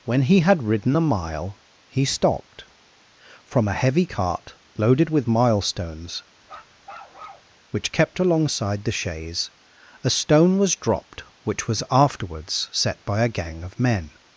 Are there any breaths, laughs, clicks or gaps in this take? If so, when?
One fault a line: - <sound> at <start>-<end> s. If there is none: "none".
- bark at 6.4-7.5 s